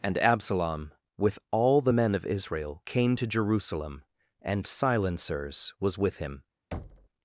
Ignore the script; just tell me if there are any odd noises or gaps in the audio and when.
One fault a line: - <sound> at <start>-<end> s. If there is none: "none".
- thud at 6.7-7.1 s